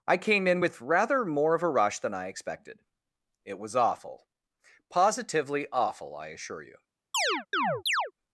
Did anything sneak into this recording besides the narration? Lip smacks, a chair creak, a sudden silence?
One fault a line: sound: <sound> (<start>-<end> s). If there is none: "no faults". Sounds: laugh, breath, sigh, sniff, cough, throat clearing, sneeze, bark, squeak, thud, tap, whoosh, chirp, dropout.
sound: chirp (7.1-8.1 s)